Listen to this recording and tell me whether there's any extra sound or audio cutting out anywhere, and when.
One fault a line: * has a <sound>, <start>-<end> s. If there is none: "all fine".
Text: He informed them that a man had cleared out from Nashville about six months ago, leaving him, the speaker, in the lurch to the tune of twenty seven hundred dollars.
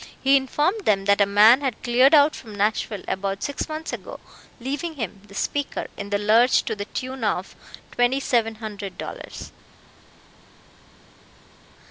all fine